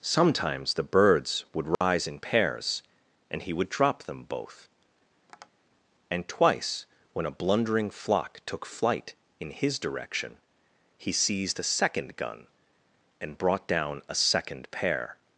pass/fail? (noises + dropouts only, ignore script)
fail